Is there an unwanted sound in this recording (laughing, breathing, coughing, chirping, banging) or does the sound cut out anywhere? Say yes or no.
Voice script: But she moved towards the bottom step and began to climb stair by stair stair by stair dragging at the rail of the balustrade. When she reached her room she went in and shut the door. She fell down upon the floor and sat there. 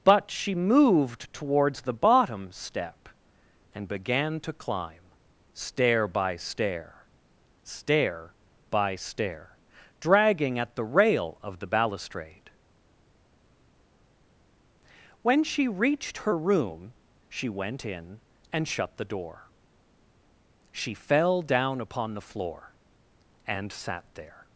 no